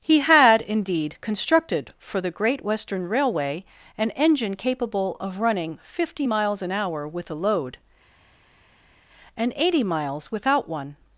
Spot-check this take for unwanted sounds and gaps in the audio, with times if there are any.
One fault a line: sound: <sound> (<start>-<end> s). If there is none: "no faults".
no faults